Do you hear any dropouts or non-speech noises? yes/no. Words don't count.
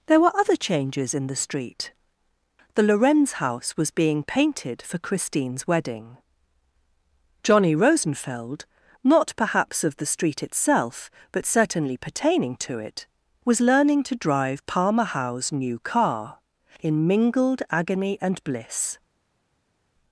no